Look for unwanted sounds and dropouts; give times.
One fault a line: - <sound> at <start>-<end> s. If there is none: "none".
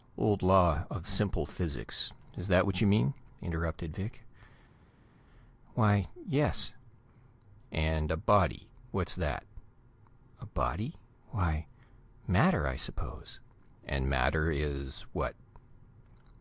none